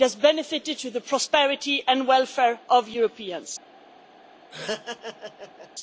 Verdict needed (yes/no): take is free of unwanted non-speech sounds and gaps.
no